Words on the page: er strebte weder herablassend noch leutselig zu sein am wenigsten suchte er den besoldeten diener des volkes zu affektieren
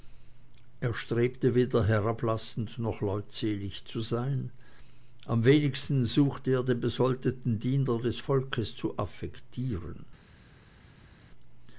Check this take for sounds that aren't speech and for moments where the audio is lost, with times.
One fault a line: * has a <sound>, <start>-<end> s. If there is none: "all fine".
all fine